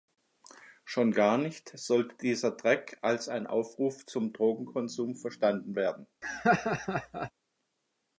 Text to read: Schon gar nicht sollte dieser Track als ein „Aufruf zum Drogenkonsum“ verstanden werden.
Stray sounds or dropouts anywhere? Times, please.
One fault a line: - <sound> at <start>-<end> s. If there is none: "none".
- laugh at 6.2-7.3 s